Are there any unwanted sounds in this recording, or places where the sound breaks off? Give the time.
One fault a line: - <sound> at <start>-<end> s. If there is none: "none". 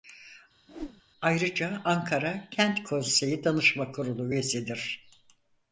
- whoosh at 0.7-1.0 s